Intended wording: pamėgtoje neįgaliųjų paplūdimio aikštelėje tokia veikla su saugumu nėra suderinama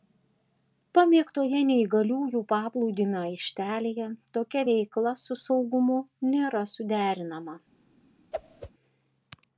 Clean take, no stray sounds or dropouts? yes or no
no